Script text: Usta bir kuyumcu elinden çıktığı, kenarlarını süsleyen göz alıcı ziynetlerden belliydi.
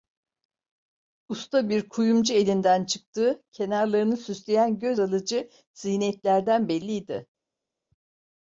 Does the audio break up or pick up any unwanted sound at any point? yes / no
no